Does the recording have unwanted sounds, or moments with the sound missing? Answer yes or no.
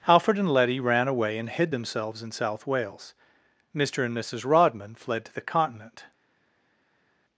no